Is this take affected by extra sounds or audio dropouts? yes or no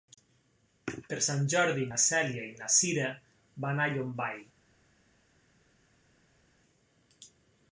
no